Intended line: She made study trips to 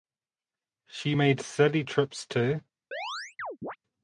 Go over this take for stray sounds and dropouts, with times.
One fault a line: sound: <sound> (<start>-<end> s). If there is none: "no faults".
sound: chirp (2.9-3.8 s)